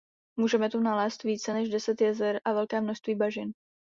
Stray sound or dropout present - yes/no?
no